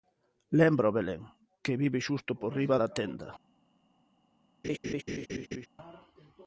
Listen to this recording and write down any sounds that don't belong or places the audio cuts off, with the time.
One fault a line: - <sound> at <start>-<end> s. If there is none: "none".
- laugh at 4.6-5.7 s